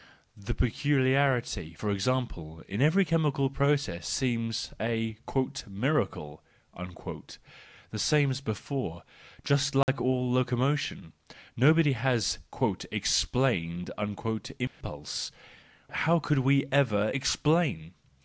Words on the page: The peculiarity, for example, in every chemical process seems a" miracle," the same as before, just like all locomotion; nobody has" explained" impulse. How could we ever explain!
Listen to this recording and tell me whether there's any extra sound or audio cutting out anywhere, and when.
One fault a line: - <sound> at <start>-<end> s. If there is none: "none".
- dropout at 9.8-9.9 s
- dropout at 14.7-14.8 s